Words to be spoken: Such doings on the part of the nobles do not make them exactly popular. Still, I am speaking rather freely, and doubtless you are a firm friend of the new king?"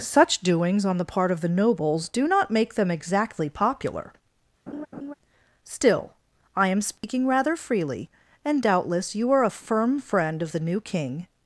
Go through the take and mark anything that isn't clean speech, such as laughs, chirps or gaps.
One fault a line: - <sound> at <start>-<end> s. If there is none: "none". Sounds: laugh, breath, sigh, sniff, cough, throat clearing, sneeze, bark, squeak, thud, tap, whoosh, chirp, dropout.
- laugh at 4.7-5.1 s
- dropout at 7.0-7.0 s